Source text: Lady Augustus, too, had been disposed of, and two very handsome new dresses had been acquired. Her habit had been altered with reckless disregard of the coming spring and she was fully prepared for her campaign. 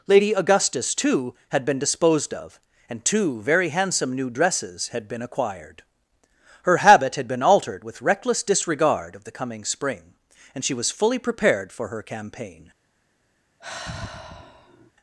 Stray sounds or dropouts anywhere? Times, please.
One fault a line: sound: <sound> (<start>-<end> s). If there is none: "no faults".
sound: sigh (13.6-14.9 s)